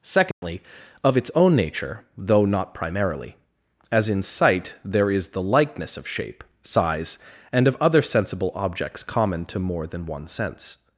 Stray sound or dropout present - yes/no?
yes